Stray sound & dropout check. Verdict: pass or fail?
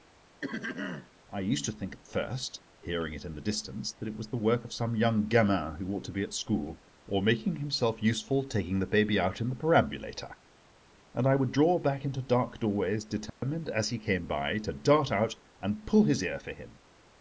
fail